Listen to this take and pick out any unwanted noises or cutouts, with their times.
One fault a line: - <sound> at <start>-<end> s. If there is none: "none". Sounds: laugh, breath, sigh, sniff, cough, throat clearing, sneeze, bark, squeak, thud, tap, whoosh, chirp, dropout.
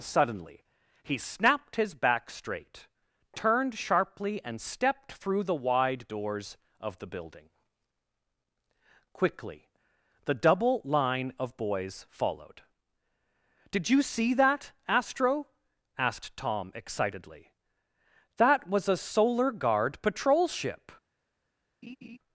- laugh at 21.8-22.2 s